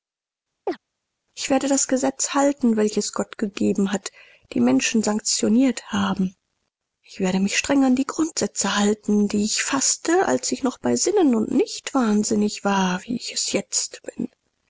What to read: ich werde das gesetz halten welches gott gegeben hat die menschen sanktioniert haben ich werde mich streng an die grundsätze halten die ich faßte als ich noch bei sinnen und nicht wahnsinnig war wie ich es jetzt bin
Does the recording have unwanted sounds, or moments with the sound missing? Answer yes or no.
yes